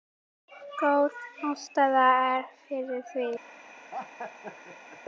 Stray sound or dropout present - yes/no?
yes